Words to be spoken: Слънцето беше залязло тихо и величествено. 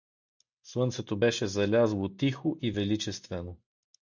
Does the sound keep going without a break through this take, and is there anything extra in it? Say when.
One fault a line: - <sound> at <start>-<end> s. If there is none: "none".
none